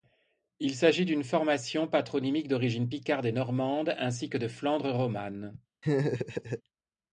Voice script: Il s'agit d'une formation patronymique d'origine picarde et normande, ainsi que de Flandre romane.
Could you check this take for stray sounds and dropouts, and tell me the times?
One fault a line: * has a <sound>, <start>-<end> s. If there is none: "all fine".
* has a laugh, 5.8-6.6 s